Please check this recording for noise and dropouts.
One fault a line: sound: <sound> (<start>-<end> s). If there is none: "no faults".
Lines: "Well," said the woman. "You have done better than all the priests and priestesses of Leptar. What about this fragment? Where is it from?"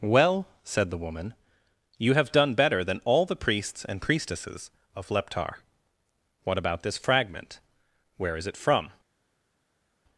no faults